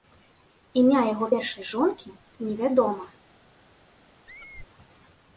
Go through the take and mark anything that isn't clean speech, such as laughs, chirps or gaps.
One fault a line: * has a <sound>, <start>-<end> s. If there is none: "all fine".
* has a squeak, 4.3-4.7 s